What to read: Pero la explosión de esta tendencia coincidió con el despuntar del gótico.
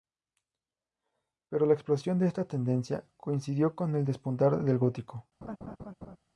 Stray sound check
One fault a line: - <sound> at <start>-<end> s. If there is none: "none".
- laugh at 5.4-6.2 s